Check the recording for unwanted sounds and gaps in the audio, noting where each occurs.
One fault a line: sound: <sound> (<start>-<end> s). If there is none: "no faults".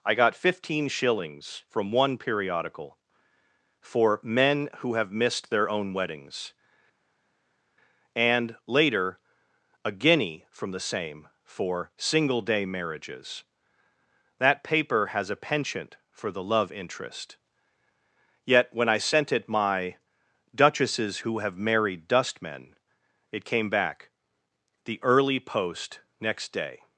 no faults